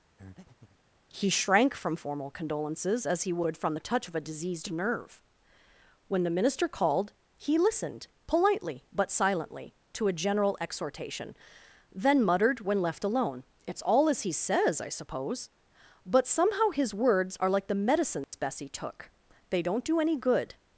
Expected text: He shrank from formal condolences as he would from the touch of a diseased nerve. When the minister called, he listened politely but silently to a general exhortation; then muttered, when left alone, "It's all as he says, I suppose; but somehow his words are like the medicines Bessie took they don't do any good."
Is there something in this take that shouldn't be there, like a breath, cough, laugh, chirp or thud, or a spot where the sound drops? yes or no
yes